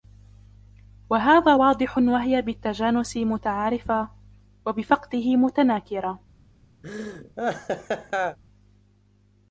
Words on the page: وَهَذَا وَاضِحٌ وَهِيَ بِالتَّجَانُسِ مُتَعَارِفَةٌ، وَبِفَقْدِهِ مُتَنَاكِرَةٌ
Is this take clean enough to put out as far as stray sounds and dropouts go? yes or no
no